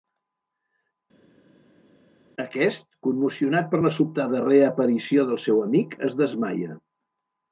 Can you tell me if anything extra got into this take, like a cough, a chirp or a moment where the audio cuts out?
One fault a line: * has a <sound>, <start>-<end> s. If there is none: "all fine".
all fine